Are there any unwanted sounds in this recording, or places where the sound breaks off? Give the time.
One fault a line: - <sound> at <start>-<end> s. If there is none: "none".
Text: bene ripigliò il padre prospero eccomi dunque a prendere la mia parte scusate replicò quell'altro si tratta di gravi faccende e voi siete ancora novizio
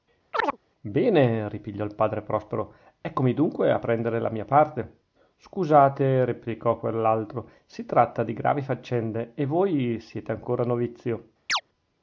- chirp at 0.3-0.6 s
- chirp at 11.5-11.6 s